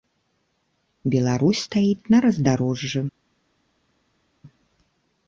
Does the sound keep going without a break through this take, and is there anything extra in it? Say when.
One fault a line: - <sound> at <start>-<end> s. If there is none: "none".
none